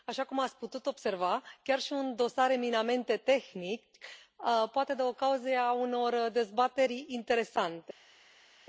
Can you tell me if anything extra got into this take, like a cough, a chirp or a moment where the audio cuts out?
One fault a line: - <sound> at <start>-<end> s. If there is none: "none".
none